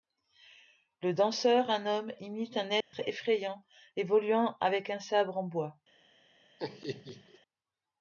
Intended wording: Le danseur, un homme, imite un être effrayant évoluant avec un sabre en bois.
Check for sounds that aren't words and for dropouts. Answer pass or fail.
fail